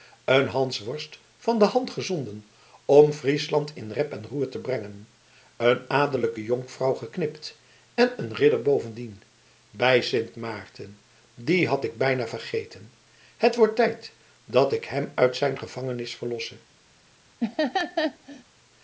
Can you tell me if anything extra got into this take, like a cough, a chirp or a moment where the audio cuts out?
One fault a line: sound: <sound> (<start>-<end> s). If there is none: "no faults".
sound: laugh (17.4-18.4 s)